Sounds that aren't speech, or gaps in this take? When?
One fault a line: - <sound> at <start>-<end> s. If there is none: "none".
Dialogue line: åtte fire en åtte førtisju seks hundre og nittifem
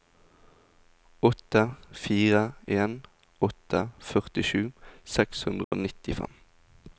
- dropout at 5.6-5.7 s